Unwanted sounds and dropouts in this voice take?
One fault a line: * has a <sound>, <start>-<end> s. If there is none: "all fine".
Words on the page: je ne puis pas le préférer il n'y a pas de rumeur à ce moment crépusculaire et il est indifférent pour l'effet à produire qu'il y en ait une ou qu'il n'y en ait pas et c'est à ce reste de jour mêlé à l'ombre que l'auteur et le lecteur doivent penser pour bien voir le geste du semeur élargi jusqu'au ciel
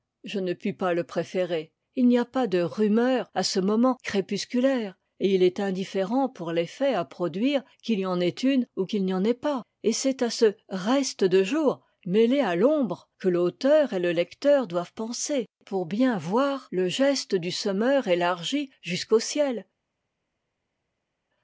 all fine